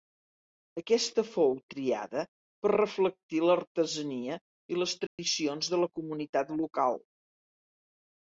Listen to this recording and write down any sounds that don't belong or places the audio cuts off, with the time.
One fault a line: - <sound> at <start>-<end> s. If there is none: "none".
- dropout at 5.1-5.2 s